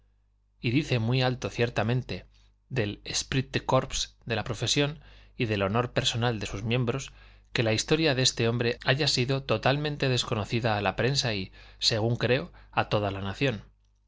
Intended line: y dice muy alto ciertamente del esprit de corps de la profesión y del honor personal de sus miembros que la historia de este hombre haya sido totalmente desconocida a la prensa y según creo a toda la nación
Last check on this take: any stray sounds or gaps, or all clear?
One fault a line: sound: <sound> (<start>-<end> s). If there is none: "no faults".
no faults